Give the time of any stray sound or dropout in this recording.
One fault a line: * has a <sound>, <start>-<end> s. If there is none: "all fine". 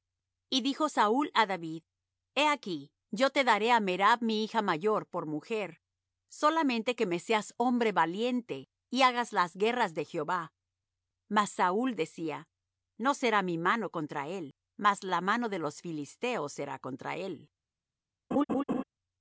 * has a laugh, 18.3-18.8 s